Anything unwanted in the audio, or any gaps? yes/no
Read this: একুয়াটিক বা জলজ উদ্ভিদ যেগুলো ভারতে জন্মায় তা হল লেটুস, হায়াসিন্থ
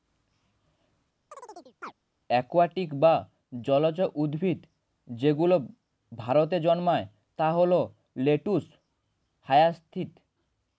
yes